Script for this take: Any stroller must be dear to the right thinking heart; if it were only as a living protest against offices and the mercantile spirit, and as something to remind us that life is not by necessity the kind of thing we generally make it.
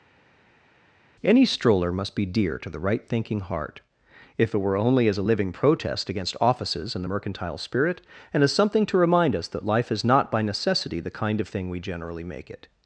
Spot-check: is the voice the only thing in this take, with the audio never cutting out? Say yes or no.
yes